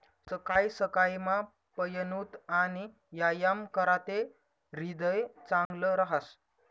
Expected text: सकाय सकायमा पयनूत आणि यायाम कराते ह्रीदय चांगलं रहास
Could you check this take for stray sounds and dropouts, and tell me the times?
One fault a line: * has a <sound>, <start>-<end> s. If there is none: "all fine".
* has a dropout, 5.7-5.7 s